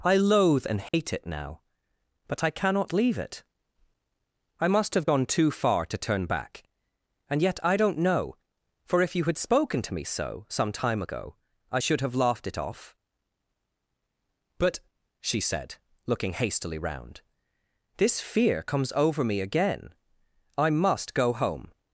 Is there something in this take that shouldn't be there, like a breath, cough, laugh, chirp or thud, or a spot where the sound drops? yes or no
yes